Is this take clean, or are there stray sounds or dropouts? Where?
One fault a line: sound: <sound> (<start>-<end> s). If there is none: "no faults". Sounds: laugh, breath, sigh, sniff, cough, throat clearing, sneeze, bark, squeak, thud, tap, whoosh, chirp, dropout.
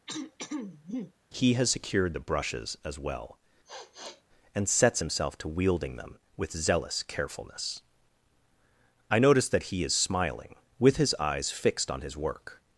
sound: throat clearing (0.1-1.1 s)
sound: sniff (3.7-4.2 s)